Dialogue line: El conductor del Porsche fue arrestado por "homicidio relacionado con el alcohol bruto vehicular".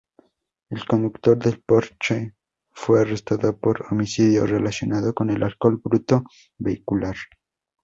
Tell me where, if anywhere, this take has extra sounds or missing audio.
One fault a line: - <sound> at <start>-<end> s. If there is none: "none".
none